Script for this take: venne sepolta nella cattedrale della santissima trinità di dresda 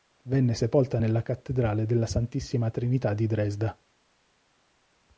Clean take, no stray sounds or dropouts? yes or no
yes